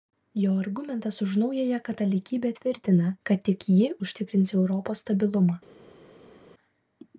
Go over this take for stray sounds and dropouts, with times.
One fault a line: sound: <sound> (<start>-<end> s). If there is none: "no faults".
no faults